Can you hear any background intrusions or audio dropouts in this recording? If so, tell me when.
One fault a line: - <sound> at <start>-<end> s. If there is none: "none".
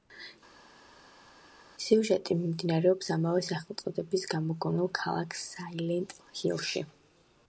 none